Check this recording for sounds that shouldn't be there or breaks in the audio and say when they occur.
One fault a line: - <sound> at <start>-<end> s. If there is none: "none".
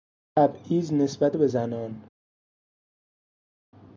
none